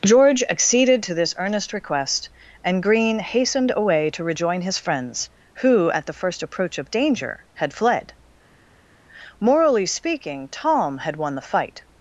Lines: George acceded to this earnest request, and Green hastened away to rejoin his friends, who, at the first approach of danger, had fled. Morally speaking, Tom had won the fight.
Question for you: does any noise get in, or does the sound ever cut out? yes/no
no